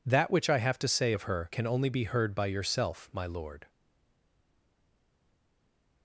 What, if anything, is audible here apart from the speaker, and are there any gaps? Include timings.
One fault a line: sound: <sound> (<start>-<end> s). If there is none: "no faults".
no faults